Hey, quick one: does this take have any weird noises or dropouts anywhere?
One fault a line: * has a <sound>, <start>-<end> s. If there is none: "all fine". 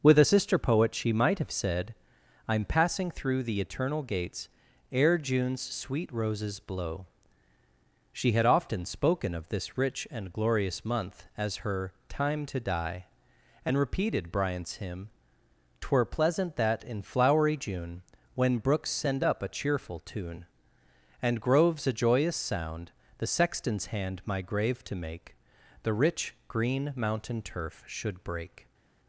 all fine